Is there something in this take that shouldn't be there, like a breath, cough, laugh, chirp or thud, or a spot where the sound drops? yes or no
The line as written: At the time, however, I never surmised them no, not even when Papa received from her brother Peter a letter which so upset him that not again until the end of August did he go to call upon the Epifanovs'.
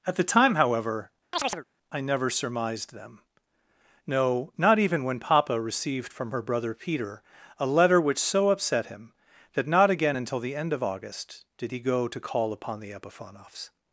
yes